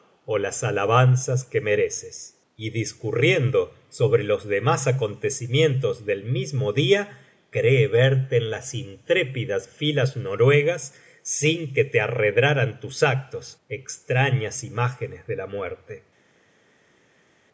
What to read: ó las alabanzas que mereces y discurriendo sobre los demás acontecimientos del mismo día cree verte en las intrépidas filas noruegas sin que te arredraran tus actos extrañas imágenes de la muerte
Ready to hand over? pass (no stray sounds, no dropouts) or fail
pass